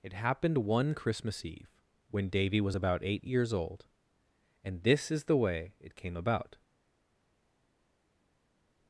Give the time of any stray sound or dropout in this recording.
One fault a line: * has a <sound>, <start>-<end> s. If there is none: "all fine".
all fine